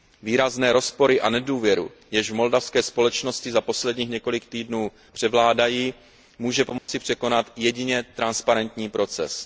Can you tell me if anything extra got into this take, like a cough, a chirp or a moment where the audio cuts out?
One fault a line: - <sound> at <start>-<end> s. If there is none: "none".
- dropout at 6.8-6.9 s